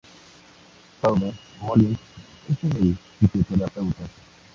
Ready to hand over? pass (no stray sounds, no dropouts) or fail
pass